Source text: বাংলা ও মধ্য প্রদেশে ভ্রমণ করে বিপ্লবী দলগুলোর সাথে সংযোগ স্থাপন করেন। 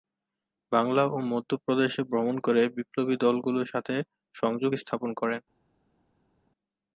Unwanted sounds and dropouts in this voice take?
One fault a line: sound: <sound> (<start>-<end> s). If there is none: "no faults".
no faults